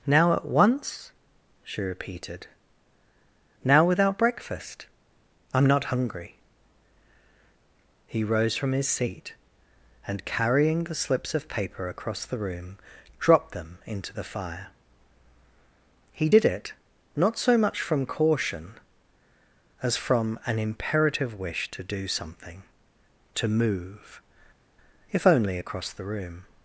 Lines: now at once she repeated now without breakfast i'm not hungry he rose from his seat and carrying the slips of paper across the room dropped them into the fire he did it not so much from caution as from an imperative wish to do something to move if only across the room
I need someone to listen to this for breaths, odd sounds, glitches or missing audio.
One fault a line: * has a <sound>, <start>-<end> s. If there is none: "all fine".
all fine